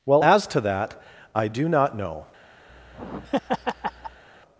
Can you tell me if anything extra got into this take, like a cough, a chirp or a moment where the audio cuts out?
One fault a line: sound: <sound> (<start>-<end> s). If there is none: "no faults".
sound: laugh (2.7-4.2 s)